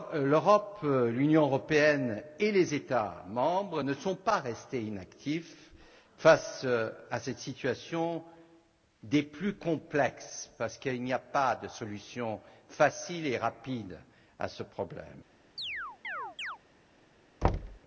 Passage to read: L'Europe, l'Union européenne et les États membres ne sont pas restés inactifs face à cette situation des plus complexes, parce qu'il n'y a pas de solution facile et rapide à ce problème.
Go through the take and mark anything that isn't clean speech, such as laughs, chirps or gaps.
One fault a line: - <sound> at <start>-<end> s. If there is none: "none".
- chirp at 15.6-16.6 s
- thud at 17.4-17.8 s